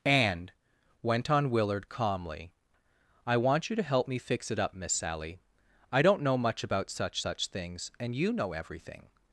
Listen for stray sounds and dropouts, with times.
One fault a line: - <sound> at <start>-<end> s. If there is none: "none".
none